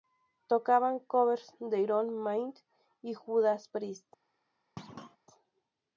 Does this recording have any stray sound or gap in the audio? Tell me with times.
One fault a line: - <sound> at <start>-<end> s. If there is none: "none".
- thud at 4.8-5.2 s